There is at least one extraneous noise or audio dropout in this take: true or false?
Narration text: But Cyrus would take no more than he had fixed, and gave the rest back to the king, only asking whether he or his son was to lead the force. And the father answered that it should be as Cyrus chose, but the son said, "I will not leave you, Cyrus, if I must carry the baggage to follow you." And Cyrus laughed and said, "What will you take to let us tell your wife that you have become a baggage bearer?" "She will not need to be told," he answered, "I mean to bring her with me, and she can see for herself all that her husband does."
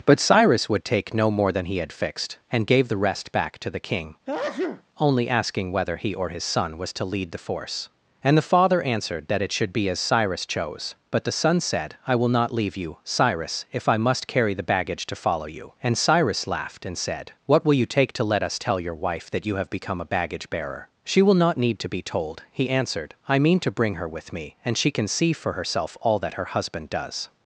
true